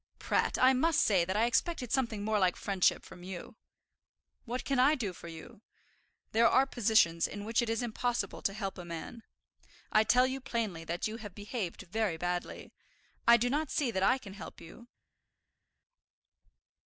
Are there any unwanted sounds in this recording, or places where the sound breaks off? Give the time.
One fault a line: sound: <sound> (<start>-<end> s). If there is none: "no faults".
no faults